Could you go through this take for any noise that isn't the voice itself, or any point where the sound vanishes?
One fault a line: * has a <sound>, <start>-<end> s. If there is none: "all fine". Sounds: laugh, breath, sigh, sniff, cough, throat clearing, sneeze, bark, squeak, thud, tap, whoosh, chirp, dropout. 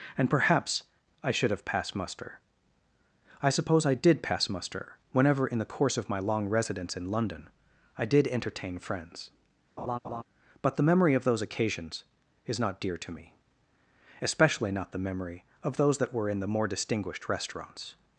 * has a laugh, 9.8-10.2 s